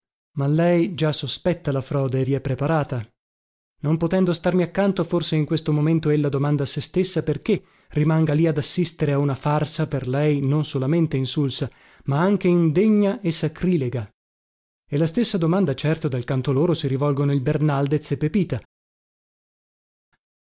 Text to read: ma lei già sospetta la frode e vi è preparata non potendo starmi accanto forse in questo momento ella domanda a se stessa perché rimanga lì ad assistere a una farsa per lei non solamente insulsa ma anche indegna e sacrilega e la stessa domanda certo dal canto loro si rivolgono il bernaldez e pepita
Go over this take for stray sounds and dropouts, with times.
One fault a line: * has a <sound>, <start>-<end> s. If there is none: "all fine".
all fine